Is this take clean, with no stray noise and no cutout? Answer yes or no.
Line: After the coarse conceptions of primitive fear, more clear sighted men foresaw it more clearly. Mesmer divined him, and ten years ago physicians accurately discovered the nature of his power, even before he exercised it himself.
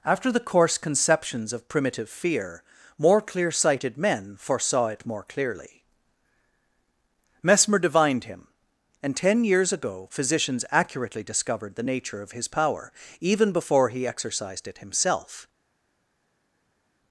yes